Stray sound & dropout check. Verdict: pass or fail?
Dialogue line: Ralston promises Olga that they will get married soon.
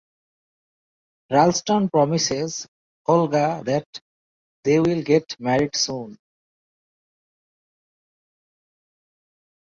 pass